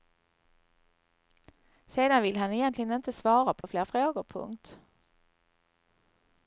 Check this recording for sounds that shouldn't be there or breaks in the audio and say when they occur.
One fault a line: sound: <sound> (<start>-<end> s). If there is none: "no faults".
sound: dropout (3.6-3.6 s)